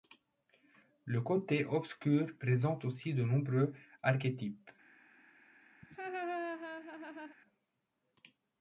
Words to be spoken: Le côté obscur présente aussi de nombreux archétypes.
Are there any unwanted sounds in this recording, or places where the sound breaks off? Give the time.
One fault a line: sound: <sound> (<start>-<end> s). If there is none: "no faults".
sound: laugh (5.8-7.4 s)